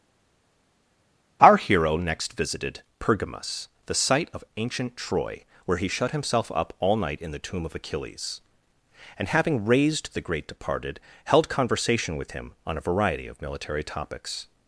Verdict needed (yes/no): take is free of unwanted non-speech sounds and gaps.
yes